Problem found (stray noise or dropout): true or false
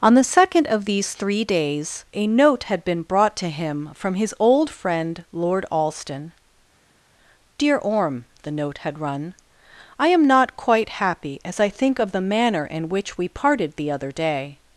false